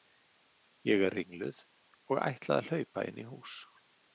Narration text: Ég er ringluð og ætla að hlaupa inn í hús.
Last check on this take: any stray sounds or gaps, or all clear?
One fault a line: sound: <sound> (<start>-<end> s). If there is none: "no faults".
no faults